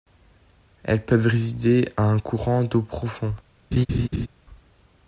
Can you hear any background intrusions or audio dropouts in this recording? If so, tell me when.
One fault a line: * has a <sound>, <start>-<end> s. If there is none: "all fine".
* has a laugh, 3.7-4.3 s